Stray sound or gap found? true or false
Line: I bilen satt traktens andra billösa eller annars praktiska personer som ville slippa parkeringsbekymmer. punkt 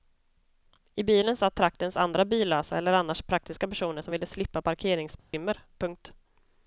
true